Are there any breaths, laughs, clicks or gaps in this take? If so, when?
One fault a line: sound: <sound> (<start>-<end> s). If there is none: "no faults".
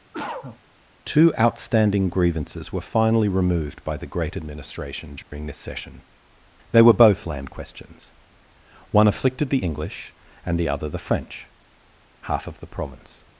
sound: cough (0.1-0.6 s)
sound: dropout (5.2-5.3 s)